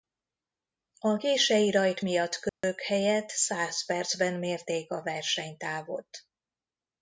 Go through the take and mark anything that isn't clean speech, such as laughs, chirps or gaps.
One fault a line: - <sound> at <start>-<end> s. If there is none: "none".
- dropout at 2.5-2.6 s